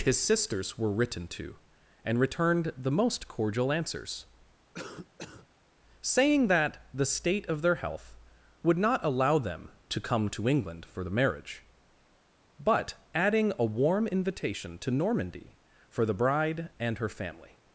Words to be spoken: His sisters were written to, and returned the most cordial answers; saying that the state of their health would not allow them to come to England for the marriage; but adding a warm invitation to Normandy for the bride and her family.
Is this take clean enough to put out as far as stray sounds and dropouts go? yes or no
no